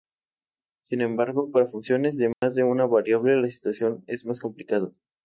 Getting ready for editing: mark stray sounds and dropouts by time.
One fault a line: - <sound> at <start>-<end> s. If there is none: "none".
- dropout at 2.3-2.4 s